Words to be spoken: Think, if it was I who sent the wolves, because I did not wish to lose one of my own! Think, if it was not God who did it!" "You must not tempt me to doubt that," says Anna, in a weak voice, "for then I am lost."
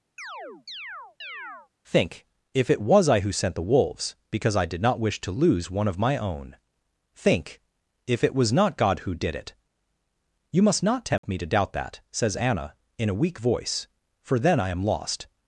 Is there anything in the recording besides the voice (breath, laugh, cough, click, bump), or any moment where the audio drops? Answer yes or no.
yes